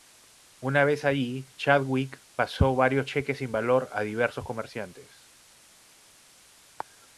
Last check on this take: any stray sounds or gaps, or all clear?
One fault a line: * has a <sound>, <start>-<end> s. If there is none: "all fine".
all fine